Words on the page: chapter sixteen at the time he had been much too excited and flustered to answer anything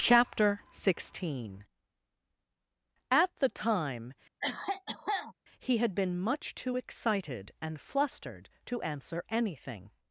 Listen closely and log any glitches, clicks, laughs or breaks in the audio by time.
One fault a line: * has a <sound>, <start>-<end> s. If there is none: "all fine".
* has a cough, 4.4-5.3 s